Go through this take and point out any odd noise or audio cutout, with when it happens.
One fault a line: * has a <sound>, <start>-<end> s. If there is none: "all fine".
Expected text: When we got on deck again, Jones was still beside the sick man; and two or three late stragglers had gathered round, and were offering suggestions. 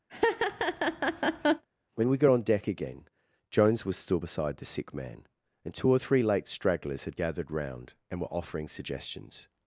* has a laugh, 0.1-1.6 s